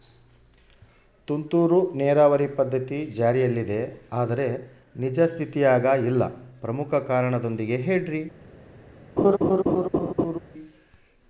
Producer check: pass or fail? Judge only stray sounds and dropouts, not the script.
fail